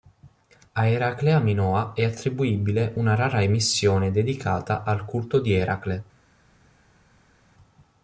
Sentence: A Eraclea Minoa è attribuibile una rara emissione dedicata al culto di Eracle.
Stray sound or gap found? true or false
false